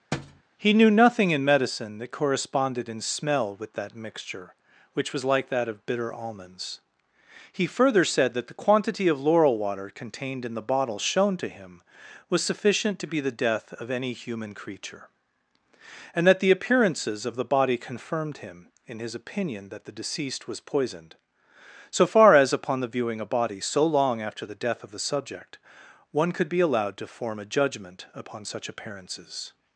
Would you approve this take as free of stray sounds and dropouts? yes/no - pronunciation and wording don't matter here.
no